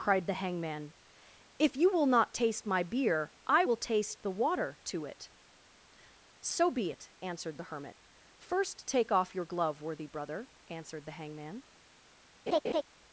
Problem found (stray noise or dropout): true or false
true